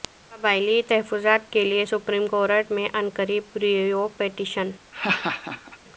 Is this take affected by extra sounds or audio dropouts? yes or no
yes